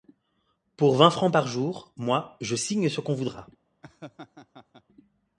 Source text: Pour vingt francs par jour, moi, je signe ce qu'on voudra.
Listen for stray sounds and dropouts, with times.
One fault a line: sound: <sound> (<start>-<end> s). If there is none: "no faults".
sound: laugh (3.8-4.8 s)